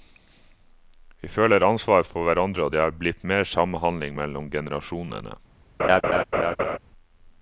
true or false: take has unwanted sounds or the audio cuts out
true